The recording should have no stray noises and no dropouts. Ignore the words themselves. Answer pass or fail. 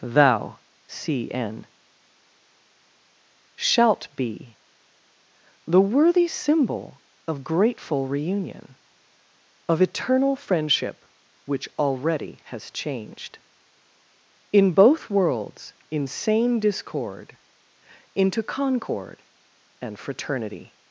pass